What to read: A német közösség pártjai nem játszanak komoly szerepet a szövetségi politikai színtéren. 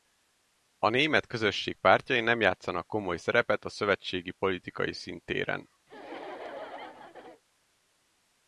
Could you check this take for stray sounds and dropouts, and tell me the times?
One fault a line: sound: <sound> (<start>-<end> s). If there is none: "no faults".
sound: laugh (5.9-7.4 s)